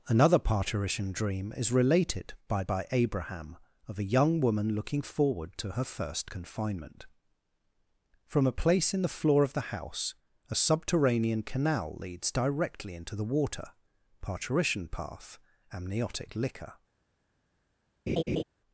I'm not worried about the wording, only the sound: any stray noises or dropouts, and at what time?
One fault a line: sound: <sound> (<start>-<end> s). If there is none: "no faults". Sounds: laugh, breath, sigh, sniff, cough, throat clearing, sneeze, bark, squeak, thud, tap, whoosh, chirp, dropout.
sound: laugh (18.1-18.4 s)